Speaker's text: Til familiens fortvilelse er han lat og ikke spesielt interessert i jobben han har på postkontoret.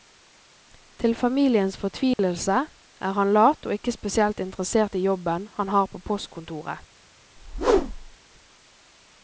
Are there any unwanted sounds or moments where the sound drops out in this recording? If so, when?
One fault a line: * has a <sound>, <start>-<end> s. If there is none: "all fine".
* has a dropout, 2.1-2.2 s
* has a whoosh, 7.4-8.2 s